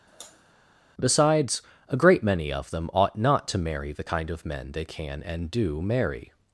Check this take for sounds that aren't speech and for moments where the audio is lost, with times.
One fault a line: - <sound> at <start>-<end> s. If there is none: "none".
- sigh at 0.1-0.5 s